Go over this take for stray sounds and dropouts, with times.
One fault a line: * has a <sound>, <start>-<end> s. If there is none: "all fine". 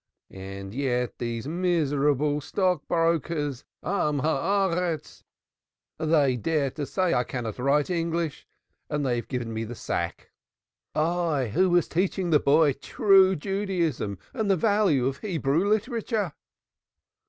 all fine